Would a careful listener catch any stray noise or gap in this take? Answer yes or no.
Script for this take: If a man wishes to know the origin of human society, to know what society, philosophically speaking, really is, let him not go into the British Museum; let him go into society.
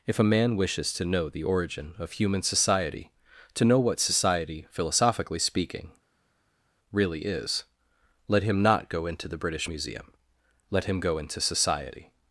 no